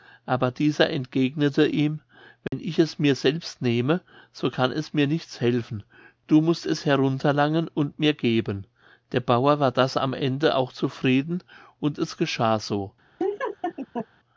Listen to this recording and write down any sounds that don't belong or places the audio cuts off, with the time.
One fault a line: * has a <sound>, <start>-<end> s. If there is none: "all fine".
* has a dropout, 2.5-2.5 s
* has a laugh, 13.2-14.1 s